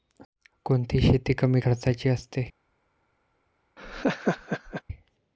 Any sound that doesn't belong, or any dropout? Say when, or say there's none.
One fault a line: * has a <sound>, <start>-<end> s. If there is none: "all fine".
* has a laugh, 3.8-4.8 s